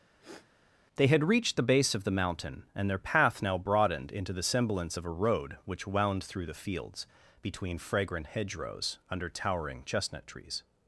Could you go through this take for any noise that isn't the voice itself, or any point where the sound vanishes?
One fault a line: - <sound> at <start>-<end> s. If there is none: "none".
- sniff at 0.2-0.5 s